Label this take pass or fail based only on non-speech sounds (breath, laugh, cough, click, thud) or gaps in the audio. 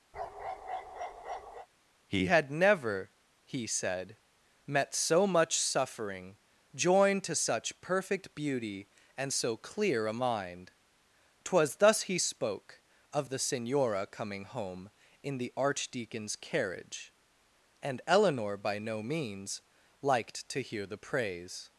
fail